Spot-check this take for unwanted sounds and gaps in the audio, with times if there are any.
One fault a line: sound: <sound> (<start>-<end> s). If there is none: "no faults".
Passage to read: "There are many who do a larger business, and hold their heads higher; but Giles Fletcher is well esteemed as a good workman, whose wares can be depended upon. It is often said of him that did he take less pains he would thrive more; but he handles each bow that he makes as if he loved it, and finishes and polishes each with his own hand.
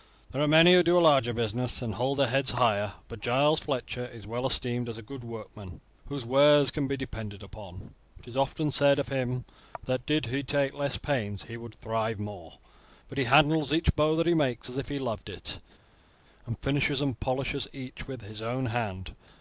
no faults